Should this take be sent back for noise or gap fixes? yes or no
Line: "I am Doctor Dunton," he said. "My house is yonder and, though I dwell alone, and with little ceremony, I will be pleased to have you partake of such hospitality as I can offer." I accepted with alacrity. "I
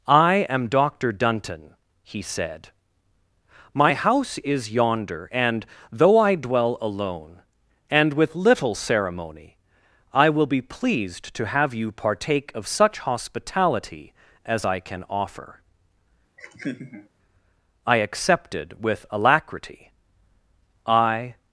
yes